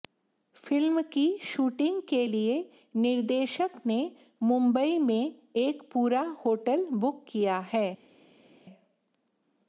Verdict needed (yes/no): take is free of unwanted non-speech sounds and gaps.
yes